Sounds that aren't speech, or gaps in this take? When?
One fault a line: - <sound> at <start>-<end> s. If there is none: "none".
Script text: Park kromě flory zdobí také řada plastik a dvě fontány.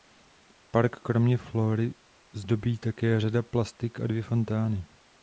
none